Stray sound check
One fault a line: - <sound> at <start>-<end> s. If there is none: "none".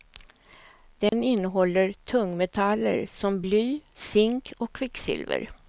- dropout at 1.1-1.1 s